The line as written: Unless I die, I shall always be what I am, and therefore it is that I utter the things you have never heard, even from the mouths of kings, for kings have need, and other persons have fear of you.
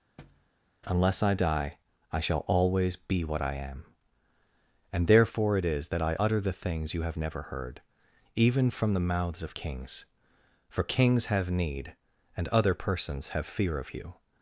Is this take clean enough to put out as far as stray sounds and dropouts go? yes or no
no